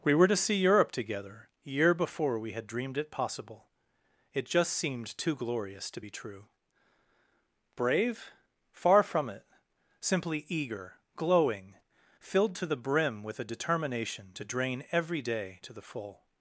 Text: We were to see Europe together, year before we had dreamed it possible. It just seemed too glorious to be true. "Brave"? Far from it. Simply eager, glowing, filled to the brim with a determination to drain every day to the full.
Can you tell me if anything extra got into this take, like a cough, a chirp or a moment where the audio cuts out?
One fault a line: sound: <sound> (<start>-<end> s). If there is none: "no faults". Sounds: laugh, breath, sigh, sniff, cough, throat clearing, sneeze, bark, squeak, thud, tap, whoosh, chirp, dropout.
no faults